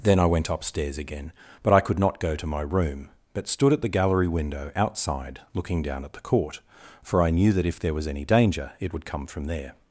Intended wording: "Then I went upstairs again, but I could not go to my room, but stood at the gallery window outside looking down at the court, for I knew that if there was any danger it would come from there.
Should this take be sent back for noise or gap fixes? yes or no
no